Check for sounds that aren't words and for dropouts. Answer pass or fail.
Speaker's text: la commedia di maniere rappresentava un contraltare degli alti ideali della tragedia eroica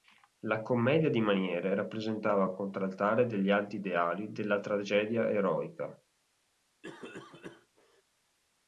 fail